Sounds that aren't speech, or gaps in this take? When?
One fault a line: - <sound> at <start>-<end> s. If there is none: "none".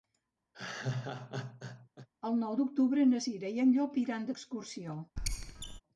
- laugh at 0.5-2.1 s
- squeak at 5.2-5.8 s